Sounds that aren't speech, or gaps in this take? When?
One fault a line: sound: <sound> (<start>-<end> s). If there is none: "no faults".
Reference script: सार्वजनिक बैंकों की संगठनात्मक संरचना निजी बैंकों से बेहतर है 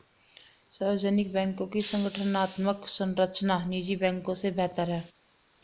no faults